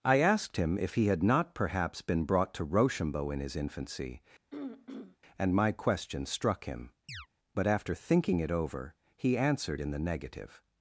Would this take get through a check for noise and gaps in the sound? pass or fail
fail